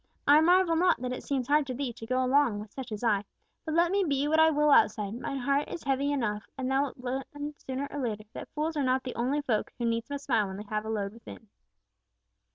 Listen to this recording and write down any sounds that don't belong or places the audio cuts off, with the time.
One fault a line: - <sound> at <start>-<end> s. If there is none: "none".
none